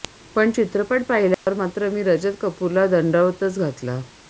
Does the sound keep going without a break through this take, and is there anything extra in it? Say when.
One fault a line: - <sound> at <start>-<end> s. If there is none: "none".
- dropout at 1.3-1.5 s